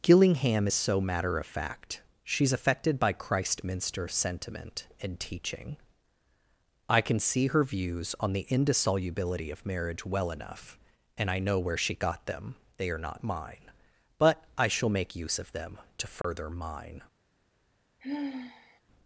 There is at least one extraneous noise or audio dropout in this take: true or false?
true